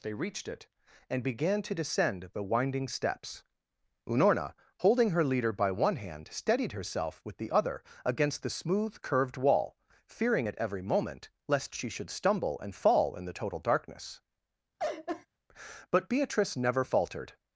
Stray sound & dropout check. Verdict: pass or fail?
fail